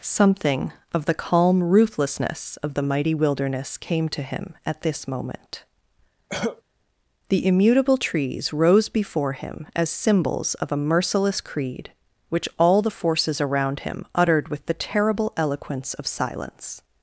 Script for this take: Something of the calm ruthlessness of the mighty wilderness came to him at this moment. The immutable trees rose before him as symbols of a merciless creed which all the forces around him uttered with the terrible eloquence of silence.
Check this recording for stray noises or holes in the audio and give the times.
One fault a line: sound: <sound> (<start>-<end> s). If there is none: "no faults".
sound: cough (6.3-6.6 s)